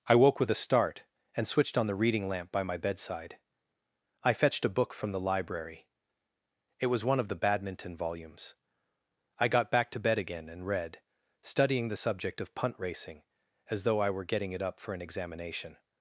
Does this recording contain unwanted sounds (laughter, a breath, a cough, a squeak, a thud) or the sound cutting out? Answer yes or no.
no